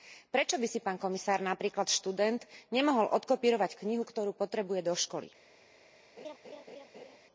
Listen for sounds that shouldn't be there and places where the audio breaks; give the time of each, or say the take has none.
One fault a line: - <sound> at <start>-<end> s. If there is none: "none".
- laugh at 6.2-7.2 s